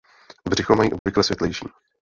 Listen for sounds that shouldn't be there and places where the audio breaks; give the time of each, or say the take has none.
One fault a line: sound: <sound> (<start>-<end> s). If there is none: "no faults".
sound: dropout (1.0-1.1 s)